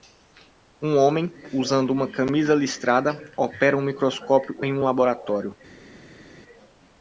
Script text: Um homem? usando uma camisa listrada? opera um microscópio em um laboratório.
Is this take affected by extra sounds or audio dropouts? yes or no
no